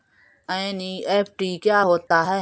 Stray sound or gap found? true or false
true